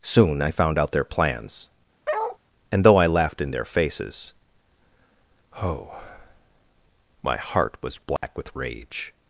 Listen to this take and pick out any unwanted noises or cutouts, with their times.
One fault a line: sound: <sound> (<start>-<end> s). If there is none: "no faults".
sound: bark (2.1-2.4 s)
sound: dropout (8.2-8.2 s)